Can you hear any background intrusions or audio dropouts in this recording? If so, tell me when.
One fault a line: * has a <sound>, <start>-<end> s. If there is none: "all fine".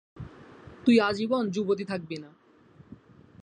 all fine